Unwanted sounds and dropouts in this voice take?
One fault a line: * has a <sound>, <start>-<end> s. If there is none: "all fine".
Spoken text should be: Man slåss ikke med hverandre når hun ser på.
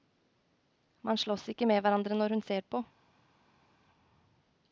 all fine